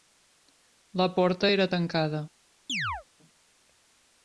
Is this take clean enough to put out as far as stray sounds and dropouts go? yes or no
no